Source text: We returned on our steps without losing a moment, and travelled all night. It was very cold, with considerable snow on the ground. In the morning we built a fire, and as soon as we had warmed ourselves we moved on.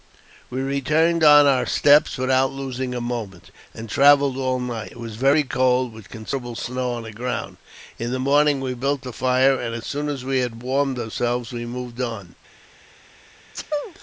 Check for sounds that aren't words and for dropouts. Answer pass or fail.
fail